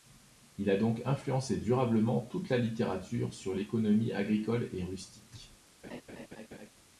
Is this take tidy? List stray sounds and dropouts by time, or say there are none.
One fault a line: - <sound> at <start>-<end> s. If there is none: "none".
- laugh at 5.8-6.7 s